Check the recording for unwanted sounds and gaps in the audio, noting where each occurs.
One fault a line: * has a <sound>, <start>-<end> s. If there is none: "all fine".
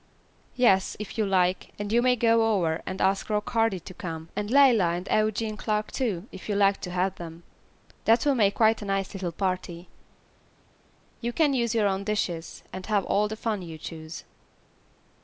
all fine